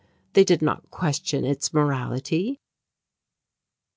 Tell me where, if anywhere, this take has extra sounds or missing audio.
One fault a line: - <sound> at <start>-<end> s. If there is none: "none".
none